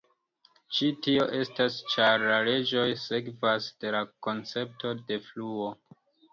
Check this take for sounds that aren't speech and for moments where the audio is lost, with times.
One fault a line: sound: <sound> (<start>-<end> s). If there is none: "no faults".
no faults